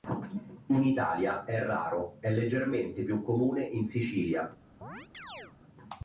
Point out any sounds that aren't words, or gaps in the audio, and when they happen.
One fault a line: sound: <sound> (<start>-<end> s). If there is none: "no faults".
sound: chirp (4.8-5.6 s)